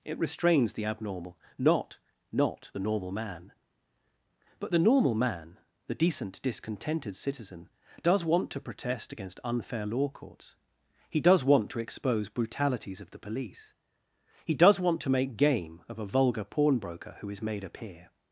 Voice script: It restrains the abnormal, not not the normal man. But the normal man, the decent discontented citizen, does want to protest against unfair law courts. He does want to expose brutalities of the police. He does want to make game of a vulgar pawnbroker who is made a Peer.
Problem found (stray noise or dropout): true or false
false